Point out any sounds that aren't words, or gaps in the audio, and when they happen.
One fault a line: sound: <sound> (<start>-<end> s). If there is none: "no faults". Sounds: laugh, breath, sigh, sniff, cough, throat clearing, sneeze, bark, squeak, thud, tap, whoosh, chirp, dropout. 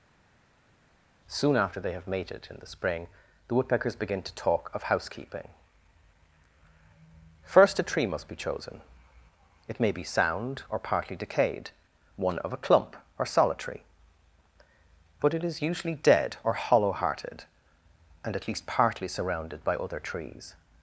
no faults